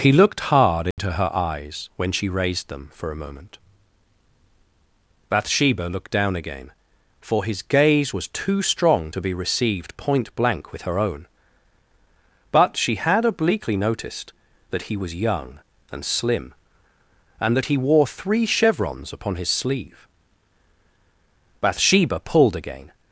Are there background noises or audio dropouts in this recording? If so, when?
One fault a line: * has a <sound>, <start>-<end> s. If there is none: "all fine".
* has a dropout, 0.9-1.0 s